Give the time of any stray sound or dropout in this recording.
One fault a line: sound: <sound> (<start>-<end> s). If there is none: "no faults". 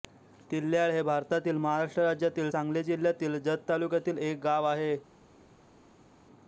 no faults